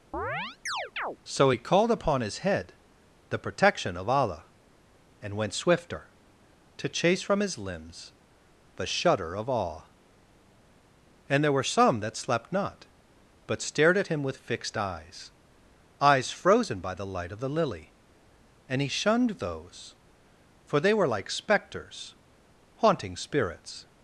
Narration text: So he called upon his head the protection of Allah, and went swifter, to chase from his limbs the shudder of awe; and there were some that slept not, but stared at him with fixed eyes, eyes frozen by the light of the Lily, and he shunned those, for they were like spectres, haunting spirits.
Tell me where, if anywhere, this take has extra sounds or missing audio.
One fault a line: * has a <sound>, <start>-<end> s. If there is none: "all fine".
* has a chirp, 0.1-1.2 s